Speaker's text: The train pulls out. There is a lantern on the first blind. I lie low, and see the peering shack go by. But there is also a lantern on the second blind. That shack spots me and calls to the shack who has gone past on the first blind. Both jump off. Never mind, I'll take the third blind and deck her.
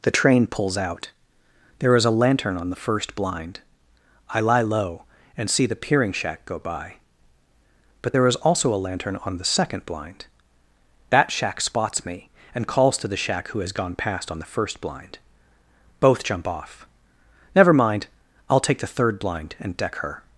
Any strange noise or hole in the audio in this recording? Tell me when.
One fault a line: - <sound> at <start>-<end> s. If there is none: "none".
none